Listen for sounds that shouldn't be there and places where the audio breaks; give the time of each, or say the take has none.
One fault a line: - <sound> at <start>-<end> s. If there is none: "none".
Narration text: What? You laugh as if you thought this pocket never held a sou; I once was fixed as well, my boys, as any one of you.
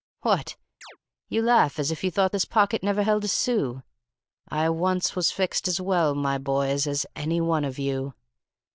- chirp at 0.8-1.0 s